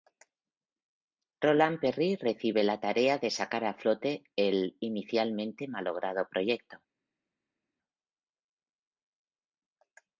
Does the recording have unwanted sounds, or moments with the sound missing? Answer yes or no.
no